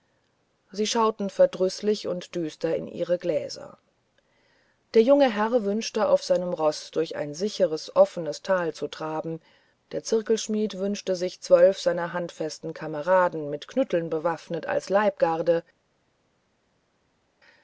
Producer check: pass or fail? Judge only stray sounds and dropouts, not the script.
pass